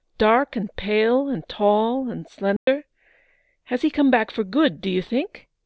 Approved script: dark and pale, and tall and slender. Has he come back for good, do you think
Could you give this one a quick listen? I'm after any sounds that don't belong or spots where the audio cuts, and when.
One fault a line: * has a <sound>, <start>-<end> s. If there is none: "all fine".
* has a dropout, 2.6-2.7 s